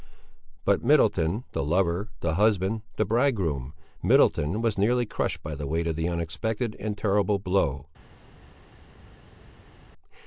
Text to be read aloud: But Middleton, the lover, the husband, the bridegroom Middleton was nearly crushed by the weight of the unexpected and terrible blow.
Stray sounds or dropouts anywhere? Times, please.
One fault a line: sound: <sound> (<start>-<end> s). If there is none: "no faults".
no faults